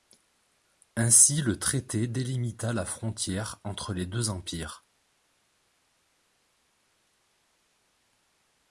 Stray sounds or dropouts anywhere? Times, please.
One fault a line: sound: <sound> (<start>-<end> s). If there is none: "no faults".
no faults